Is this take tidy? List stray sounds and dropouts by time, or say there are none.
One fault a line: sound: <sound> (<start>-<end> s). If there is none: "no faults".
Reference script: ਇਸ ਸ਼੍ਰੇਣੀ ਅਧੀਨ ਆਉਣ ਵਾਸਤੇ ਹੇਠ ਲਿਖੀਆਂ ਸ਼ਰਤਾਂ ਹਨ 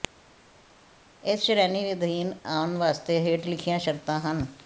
no faults